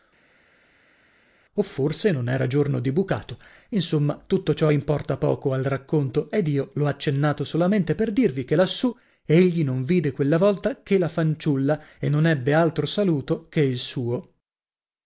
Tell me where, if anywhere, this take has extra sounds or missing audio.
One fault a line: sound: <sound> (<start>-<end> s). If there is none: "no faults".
no faults